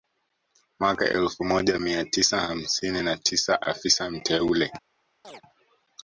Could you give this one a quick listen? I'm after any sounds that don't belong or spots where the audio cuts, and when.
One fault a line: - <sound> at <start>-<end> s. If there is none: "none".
- chirp at 5.2-5.4 s